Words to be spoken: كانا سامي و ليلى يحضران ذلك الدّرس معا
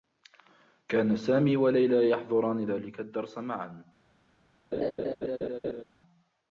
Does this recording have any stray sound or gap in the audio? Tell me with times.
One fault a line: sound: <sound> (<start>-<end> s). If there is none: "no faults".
sound: laugh (4.7-5.8 s)